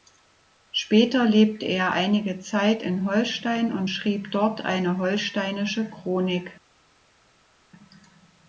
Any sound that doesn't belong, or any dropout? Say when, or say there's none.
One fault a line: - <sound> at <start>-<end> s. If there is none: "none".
none